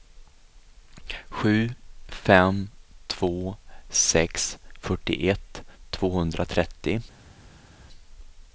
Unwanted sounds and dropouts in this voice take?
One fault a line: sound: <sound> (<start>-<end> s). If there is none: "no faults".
no faults